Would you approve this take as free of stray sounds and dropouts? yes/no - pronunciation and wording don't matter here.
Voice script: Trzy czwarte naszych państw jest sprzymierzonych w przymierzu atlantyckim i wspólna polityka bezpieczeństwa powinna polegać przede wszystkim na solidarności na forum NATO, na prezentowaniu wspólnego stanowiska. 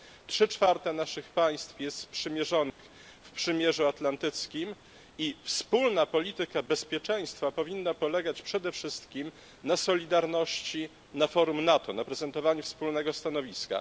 no